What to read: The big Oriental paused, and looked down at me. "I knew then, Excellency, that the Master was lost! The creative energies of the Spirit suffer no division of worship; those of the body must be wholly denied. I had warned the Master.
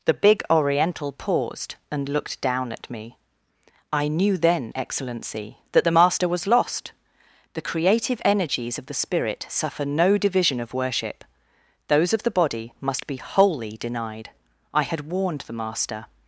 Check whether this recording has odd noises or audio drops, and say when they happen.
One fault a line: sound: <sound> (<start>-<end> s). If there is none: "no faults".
no faults